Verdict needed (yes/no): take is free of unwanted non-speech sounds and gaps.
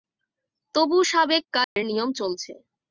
no